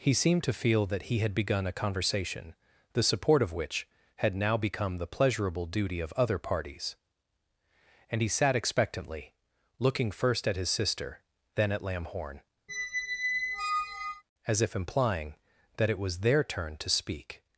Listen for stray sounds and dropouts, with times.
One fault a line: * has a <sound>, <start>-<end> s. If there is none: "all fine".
* has a squeak, 12.7-14.2 s